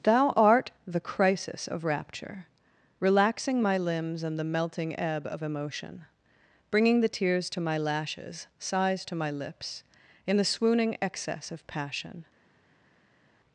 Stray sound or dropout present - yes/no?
no